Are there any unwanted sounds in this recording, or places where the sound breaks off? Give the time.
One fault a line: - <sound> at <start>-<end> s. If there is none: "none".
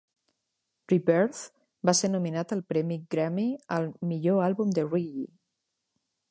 none